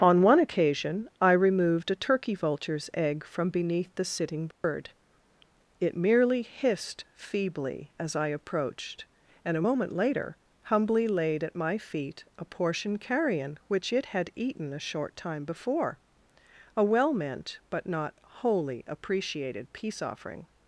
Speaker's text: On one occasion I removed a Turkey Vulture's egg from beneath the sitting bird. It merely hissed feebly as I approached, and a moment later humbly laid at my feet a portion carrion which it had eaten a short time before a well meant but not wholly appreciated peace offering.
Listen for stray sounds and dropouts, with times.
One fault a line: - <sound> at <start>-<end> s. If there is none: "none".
- dropout at 4.5-4.6 s